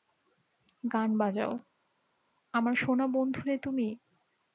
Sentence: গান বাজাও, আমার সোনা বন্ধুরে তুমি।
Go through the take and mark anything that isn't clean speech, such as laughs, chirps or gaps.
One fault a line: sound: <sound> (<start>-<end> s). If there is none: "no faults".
no faults